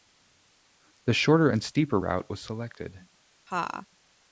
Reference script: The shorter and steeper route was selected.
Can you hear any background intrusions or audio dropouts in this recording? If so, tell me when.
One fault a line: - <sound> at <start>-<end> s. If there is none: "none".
- laugh at 3.5-3.9 s